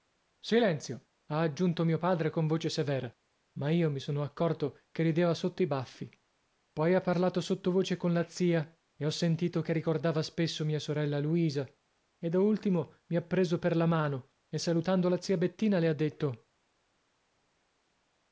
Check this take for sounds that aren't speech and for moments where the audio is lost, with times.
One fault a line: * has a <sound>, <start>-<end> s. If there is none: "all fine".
all fine